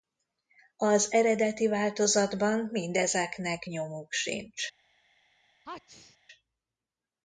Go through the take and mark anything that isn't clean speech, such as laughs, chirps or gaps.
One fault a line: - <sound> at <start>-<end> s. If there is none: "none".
- sneeze at 5.6-6.2 s